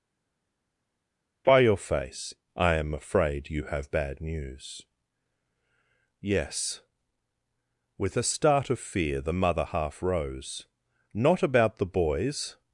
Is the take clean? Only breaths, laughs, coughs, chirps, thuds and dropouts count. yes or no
yes